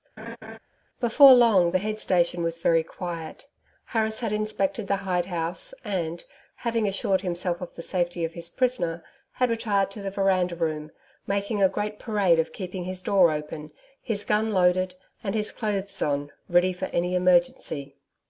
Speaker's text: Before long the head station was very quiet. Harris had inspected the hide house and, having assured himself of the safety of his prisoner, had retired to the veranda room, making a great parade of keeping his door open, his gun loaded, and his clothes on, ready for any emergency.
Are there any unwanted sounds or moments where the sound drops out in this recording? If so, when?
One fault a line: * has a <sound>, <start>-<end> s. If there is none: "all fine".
* has a laugh, 0.2-0.6 s